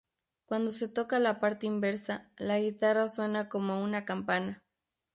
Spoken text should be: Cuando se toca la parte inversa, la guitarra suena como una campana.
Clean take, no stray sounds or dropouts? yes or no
yes